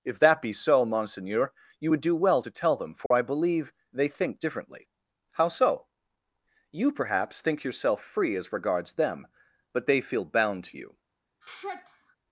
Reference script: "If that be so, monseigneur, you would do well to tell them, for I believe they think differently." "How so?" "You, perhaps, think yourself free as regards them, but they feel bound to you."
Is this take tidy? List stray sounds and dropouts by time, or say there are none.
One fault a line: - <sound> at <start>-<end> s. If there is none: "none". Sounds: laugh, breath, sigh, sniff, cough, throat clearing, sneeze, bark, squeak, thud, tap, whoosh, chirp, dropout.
- dropout at 3.1-3.1 s
- sigh at 11.4-12.2 s